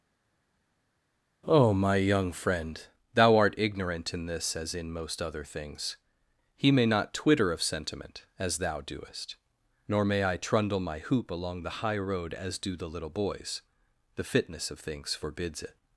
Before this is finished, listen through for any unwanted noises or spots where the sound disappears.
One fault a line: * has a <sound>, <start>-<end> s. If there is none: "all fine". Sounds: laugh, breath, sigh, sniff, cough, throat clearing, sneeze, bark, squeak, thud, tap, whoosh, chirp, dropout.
all fine